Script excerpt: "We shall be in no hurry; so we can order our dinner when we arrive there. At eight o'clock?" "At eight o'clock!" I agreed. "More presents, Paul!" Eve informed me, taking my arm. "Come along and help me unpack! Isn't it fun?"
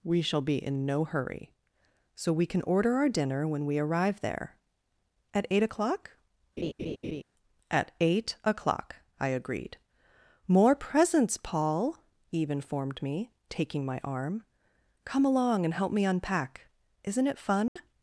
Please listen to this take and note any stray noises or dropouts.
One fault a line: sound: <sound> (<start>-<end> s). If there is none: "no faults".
sound: laugh (6.6-7.2 s)
sound: dropout (17.7-17.8 s)